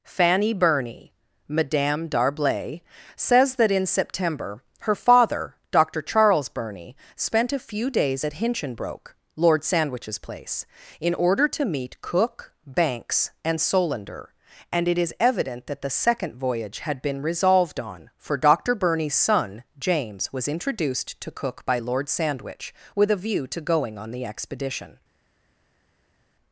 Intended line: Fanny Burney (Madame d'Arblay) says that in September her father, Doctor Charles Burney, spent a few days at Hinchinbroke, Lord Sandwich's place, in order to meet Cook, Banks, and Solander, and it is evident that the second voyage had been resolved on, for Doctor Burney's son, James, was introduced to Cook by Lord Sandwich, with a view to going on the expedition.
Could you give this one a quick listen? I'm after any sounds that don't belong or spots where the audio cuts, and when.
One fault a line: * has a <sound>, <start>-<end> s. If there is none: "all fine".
all fine